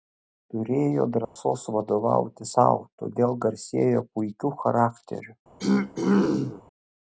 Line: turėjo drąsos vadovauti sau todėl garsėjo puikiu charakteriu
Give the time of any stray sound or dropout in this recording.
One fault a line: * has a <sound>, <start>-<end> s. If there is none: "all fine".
* has a dropout, 1.2-1.4 s
* has a throat clearing, 5.6-6.6 s